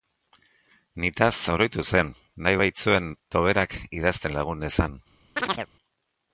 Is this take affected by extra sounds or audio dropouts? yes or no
yes